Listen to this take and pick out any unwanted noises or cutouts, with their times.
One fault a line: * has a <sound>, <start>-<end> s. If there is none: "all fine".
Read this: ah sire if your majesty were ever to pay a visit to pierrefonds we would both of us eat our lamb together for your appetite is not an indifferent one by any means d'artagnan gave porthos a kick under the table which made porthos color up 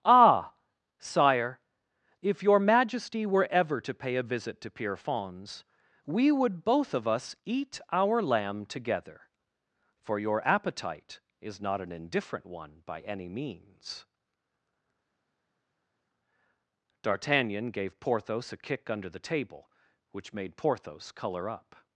all fine